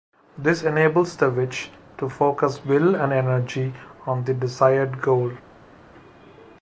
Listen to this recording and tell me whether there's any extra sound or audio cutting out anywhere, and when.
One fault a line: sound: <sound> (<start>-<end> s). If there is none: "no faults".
no faults